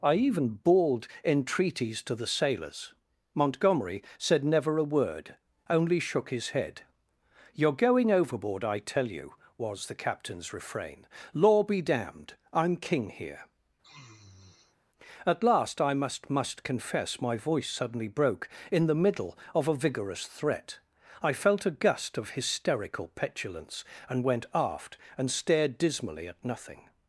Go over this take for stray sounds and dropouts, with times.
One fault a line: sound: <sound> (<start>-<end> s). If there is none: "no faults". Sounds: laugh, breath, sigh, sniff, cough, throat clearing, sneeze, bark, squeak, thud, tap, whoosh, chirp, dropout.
sound: sniff (13.8-14.8 s)